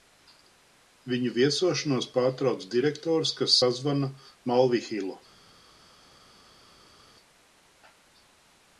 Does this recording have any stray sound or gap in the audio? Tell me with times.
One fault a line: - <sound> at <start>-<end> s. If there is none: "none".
none